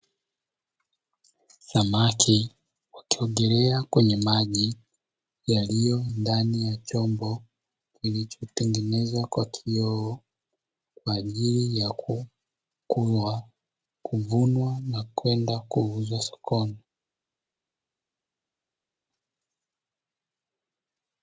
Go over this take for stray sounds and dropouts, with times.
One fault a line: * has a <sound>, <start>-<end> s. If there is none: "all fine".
all fine